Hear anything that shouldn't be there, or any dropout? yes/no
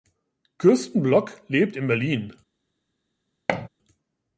yes